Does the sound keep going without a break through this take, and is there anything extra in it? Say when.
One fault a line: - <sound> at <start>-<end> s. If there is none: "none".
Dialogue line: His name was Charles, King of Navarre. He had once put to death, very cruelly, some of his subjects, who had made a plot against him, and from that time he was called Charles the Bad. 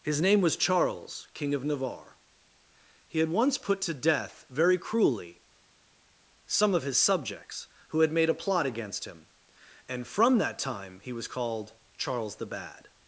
none